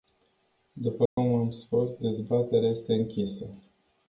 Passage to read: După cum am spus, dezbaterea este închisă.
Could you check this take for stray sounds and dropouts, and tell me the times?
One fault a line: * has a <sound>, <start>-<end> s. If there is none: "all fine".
* has a dropout, 1.1-1.2 s